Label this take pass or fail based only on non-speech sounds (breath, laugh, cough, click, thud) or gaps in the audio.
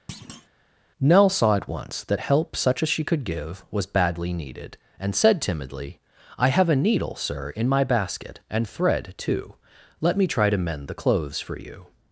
fail